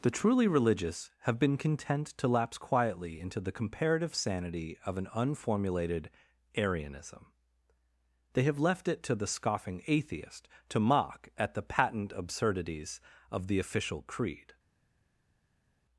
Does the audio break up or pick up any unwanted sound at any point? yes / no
no